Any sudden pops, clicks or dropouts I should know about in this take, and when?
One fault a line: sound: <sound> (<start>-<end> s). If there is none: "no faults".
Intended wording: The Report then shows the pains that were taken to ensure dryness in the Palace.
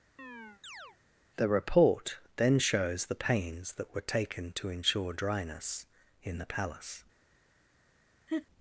sound: chirp (0.2-1.0 s)
sound: laugh (8.3-8.5 s)